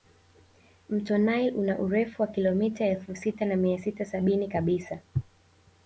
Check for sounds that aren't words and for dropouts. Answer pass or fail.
pass